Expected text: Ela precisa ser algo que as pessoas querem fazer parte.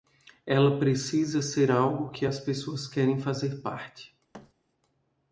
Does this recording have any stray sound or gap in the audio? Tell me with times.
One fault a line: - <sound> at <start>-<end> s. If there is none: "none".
- thud at 4.3-4.5 s